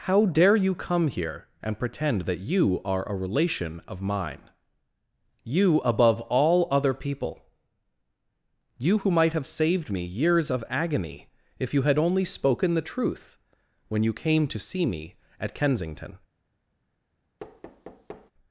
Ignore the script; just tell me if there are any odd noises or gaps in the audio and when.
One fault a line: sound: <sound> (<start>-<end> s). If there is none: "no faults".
sound: thud (17.4-18.3 s)